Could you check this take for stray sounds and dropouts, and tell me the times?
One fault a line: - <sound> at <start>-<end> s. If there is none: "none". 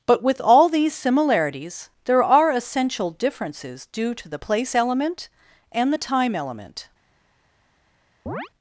- chirp at 8.3-8.5 s